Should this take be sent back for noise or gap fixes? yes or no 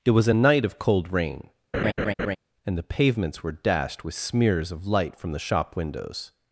yes